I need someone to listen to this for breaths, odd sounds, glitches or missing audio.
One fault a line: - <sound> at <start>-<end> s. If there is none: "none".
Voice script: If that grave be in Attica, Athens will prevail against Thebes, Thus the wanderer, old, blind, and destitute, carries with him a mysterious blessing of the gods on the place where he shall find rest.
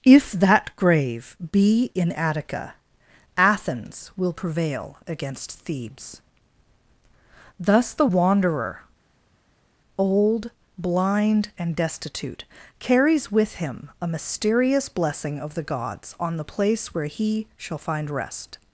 none